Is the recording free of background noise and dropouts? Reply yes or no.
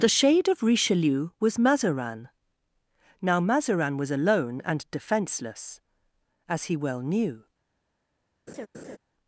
no